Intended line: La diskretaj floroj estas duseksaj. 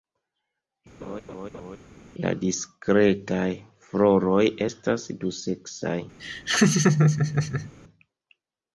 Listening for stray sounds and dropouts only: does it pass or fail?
fail